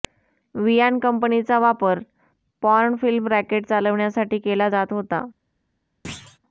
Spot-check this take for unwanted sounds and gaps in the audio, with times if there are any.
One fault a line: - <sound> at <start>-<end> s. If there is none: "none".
- thud at 6.0-6.4 s